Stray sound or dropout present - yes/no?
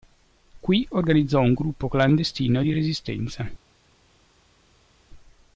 no